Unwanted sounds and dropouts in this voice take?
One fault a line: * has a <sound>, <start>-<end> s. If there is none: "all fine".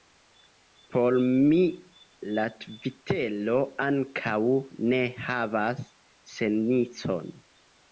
all fine